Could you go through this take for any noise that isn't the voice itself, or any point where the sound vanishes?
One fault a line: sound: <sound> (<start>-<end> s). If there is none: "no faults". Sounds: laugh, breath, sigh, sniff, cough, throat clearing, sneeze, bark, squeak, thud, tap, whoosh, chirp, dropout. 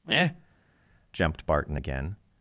no faults